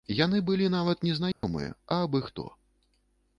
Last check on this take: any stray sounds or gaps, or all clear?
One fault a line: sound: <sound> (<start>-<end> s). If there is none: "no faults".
sound: dropout (1.3-1.4 s)